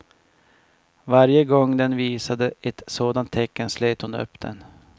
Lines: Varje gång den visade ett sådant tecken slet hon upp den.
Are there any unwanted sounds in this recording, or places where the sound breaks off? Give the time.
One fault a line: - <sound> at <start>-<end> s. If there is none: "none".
none